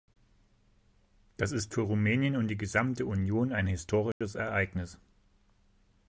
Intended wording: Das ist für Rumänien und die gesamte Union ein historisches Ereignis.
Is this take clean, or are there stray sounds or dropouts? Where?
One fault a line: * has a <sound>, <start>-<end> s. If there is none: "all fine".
* has a dropout, 4.1-4.2 s